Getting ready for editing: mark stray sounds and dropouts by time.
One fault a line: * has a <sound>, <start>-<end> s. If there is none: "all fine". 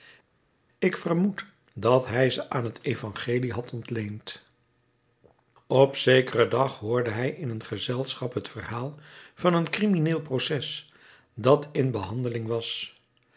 all fine